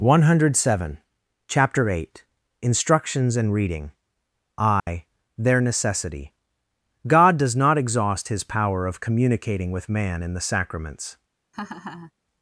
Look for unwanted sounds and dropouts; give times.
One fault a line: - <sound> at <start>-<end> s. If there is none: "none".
- dropout at 4.8-4.9 s
- laugh at 11.5-12.1 s